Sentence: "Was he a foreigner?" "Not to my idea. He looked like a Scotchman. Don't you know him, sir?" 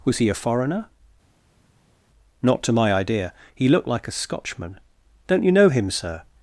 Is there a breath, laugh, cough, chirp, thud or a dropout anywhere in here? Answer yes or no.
no